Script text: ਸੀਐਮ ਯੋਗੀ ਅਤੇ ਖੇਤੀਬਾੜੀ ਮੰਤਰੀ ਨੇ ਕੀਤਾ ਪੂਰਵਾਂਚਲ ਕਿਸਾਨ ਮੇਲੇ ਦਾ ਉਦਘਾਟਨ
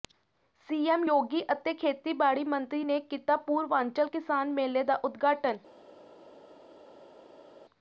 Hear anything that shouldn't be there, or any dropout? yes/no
no